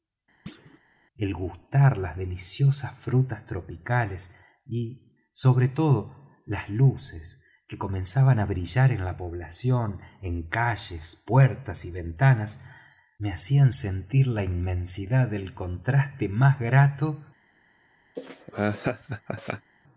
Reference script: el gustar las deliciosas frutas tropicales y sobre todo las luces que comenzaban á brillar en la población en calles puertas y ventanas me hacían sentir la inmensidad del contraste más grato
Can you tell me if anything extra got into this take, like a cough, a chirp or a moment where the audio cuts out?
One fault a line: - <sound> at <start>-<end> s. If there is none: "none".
- thud at 0.5-0.8 s
- laugh at 18.2-19.7 s